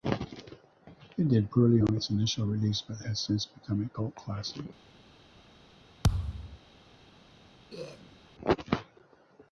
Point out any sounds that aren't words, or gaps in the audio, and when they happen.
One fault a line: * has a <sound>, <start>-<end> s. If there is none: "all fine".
* has a thud, 6.0-6.6 s
* has a throat clearing, 7.7-8.2 s